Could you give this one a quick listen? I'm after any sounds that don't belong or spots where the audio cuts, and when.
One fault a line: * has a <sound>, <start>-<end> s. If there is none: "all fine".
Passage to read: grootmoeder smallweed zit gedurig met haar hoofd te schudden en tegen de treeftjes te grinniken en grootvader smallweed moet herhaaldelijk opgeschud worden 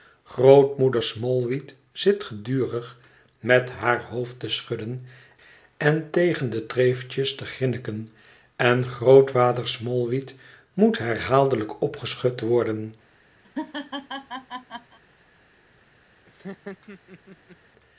* has a laugh, 13.4-15.0 s
* has a laugh, 16.3-17.6 s